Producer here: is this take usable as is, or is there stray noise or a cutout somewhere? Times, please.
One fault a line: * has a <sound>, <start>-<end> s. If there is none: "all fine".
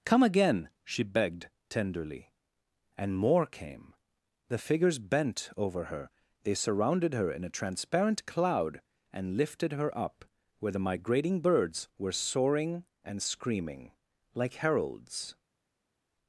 all fine